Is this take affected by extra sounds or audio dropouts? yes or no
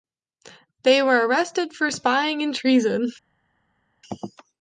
no